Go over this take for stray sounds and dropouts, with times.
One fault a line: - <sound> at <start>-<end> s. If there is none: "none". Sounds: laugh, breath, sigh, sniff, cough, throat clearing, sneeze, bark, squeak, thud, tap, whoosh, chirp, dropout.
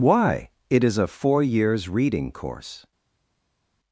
none